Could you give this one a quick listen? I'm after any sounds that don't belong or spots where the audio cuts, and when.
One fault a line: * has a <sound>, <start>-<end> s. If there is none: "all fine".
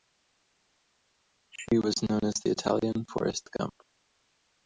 all fine